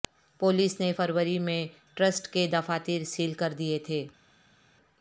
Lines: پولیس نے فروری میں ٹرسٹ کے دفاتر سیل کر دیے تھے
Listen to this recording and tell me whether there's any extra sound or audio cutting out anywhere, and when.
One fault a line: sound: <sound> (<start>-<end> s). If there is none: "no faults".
no faults